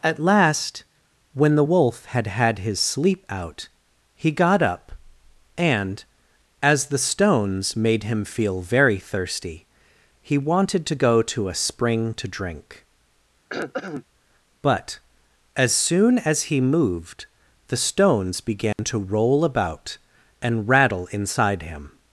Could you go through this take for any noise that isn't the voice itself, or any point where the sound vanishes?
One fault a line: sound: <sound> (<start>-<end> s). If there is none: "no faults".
sound: throat clearing (13.5-14.0 s)
sound: dropout (18.7-18.8 s)